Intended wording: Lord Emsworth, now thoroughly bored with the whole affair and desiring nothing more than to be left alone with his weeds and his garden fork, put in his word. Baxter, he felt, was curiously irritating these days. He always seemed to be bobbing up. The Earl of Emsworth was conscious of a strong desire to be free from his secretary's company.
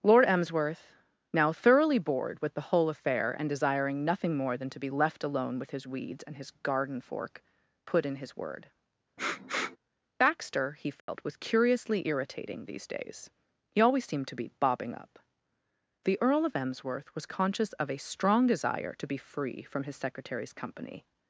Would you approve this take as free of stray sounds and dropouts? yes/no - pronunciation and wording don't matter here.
no